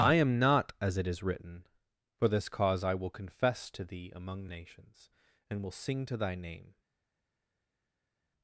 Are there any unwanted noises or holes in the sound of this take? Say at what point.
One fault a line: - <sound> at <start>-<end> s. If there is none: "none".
none